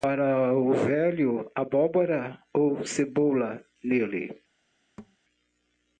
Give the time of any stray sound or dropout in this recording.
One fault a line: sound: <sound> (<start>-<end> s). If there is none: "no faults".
sound: thud (5.0-5.2 s)